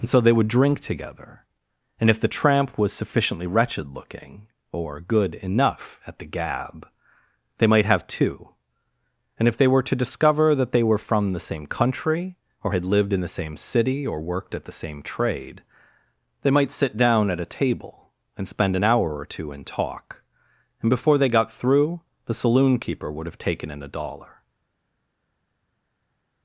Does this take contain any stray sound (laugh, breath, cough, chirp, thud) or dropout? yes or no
no